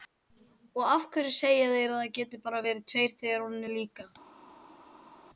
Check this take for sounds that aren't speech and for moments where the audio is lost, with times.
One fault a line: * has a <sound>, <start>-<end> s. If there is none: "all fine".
all fine